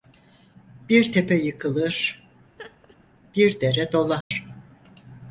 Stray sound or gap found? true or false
true